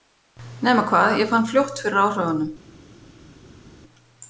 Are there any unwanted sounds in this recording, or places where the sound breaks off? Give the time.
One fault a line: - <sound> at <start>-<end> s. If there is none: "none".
none